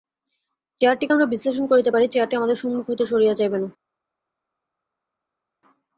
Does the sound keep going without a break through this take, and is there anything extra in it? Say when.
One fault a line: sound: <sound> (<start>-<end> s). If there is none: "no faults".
no faults